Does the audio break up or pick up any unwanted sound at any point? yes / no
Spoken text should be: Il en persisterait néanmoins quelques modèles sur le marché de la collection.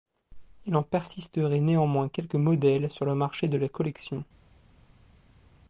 no